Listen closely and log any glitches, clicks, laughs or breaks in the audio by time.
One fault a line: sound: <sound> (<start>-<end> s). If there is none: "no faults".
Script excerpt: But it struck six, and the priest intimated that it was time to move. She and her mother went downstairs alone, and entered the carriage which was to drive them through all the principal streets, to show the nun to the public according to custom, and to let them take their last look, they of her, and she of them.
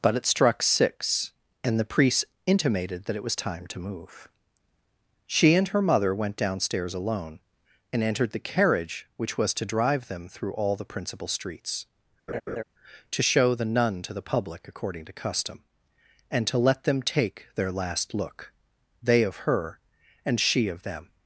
sound: laugh (12.3-12.6 s)